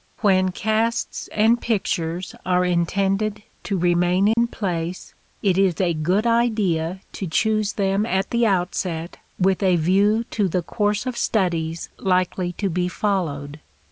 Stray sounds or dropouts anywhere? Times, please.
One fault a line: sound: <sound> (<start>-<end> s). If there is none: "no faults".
sound: dropout (4.3-4.4 s)